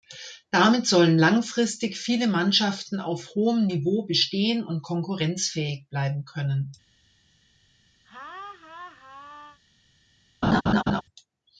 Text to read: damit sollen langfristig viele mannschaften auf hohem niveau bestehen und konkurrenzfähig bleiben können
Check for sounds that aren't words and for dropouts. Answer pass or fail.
fail